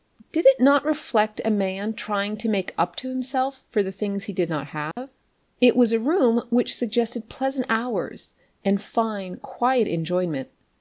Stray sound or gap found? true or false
true